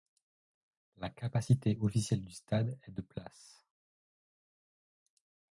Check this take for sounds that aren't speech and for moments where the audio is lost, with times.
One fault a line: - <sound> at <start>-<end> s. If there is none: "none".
none